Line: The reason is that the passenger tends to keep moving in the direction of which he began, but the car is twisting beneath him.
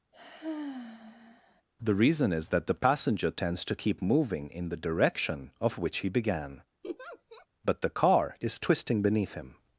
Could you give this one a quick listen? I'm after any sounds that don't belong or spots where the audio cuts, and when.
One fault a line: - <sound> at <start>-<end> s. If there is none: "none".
- sigh at 0.1-1.6 s
- laugh at 6.8-7.5 s